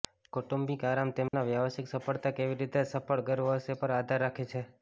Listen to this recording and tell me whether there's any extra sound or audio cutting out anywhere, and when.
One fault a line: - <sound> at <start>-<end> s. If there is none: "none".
- dropout at 1.3-1.3 s